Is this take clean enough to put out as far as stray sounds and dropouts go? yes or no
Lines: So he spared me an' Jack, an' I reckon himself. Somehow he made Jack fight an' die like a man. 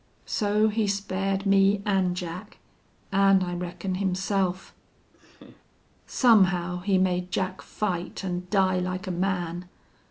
no